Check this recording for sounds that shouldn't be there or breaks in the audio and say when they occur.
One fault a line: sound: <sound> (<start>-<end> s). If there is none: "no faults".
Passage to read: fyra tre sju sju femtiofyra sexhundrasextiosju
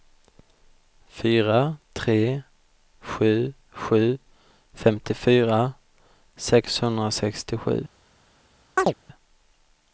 sound: chirp (8.8-8.9 s)